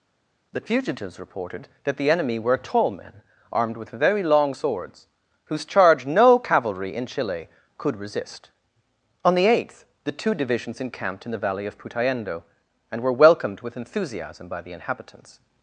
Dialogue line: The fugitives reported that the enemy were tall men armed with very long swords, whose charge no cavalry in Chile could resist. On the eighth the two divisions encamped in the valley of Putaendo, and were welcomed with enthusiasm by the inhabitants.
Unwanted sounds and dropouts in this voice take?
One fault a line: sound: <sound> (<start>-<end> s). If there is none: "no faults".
no faults